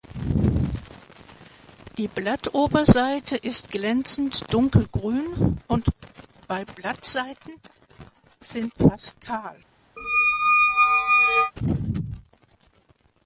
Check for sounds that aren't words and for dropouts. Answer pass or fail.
fail